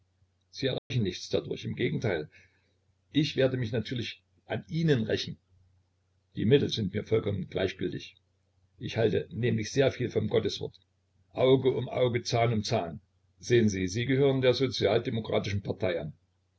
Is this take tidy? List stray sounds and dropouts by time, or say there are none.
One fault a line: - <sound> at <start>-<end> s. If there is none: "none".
- dropout at 0.8-0.9 s